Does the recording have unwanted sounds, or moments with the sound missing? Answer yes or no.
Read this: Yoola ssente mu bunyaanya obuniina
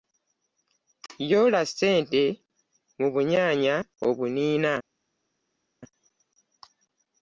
no